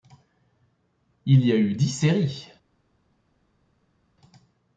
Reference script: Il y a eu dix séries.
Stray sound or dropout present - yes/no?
no